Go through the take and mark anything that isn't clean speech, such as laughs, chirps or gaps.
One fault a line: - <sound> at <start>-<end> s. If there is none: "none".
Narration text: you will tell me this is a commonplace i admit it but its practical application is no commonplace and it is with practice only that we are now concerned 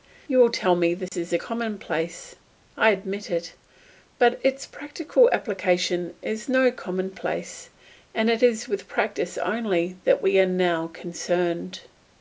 - dropout at 1.1-1.1 s